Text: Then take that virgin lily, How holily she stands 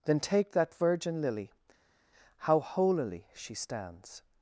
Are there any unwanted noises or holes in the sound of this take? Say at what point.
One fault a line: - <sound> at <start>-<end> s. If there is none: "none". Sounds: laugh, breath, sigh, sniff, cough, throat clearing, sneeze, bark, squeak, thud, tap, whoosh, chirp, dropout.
none